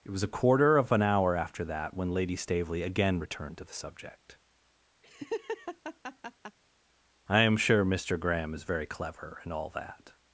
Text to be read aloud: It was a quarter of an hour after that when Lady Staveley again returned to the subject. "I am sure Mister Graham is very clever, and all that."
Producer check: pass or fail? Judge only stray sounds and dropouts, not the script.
fail